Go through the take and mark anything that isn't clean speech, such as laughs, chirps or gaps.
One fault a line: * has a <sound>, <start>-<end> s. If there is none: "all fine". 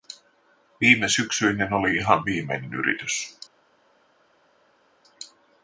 all fine